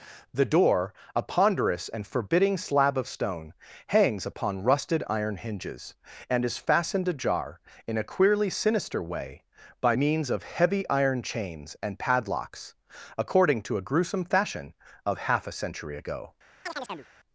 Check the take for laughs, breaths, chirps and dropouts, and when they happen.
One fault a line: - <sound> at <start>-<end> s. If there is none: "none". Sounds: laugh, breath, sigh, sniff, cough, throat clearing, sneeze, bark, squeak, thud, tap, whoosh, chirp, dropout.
- chirp at 16.6-17.1 s